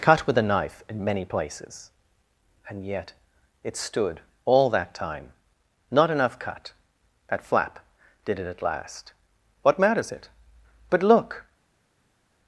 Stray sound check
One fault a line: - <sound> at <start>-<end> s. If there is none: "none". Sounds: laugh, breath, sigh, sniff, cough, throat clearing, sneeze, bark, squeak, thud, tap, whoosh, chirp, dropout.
none